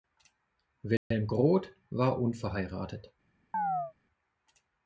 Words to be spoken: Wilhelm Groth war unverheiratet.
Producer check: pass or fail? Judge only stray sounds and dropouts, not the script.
fail